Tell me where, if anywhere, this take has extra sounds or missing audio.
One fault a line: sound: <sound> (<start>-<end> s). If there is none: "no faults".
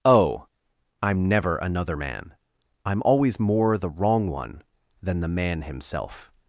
no faults